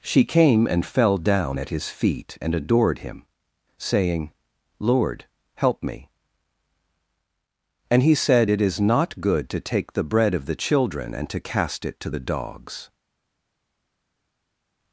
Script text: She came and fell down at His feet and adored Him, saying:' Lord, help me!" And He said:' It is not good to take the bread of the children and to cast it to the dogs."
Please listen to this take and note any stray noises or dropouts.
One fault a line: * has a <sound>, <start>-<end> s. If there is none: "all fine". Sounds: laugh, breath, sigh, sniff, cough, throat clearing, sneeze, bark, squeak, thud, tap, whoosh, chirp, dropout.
all fine